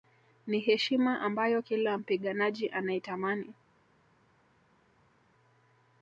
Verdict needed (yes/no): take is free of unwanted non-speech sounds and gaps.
yes